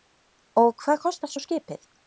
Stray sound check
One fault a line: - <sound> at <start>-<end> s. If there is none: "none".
none